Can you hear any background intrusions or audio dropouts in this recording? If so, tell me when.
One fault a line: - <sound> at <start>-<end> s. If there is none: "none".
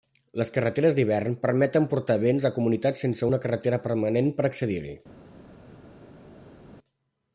none